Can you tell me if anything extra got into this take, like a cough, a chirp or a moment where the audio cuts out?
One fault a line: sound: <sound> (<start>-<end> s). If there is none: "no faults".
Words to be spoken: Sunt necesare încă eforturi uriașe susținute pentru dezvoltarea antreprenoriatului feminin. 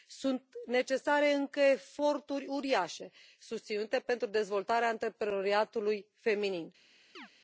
sound: chirp (7.1-7.3 s)